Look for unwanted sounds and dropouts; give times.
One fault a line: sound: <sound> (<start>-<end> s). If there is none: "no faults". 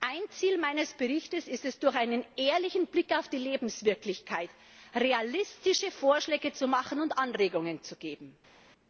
no faults